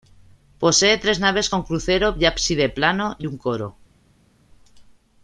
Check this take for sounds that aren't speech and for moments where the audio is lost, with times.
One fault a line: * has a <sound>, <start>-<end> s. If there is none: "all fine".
all fine